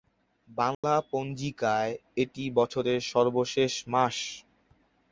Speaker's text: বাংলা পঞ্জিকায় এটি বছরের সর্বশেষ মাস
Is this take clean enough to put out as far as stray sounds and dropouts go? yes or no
no